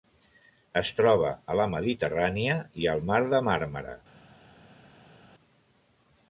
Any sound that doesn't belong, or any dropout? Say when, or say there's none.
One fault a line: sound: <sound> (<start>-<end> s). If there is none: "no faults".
no faults